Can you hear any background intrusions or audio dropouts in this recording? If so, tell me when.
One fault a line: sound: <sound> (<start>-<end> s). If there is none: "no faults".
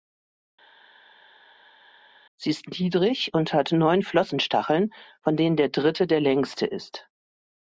no faults